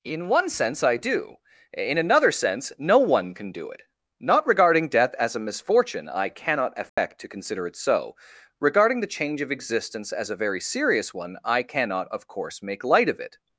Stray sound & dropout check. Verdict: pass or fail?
fail